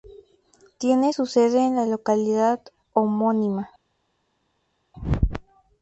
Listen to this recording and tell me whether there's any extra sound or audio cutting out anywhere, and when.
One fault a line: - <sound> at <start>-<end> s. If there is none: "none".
none